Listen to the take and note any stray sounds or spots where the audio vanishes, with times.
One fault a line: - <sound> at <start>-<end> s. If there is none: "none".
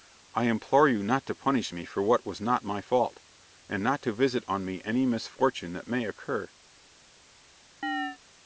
- chirp at 7.8-8.2 s